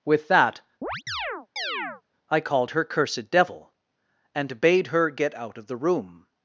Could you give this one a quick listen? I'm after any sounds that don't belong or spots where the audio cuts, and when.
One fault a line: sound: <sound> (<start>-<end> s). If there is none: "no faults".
sound: chirp (0.8-2.0 s)